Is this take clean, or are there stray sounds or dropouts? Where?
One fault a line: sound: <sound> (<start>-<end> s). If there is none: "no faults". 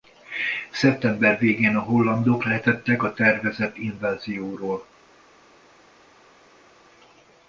no faults